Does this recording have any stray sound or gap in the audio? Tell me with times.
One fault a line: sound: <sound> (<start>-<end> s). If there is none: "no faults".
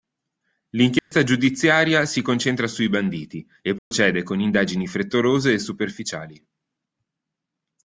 sound: dropout (1.0-1.1 s)
sound: dropout (3.8-3.9 s)